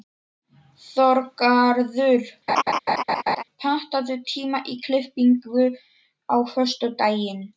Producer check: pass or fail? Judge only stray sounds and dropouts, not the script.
fail